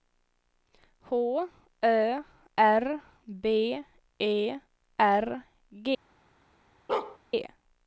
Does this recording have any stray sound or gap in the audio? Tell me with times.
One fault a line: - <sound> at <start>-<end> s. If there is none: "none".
- bark at 6.9-7.2 s